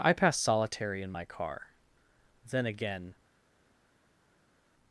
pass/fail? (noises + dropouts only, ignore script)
pass